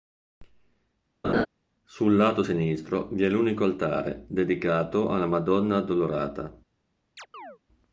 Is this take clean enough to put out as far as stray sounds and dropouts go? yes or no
no